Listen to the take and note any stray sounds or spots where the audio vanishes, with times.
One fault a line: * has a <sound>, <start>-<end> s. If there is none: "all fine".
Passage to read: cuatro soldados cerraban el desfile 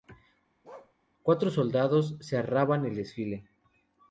* has a bark, 0.6-0.9 s